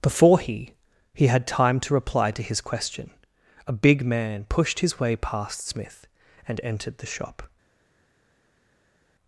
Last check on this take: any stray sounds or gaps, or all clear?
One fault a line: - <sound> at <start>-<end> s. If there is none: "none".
none